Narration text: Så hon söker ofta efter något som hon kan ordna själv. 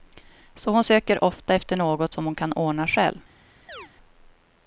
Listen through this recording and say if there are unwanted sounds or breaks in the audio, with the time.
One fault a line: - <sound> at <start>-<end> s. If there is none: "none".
- chirp at 3.7-3.9 s